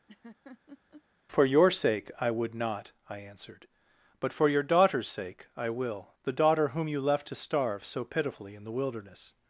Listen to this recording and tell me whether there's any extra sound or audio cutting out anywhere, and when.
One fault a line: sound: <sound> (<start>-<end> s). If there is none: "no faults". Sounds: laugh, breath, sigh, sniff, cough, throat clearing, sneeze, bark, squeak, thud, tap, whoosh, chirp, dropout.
sound: laugh (0.1-1.0 s)